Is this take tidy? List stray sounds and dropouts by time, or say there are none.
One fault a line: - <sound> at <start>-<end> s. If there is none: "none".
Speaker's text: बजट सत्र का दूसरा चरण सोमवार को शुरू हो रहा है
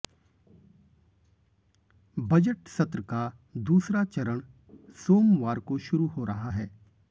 none